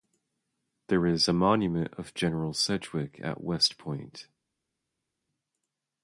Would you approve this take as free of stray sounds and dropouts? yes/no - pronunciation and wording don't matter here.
yes